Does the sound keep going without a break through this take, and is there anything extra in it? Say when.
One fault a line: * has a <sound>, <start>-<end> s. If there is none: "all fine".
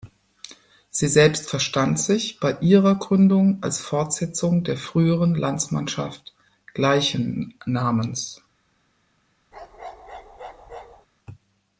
* has a bark, 9.5-11.1 s